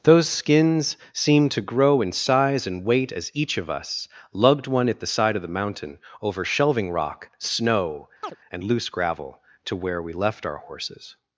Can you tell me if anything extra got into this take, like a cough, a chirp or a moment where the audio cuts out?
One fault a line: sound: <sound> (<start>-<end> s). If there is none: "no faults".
sound: chirp (8.2-8.4 s)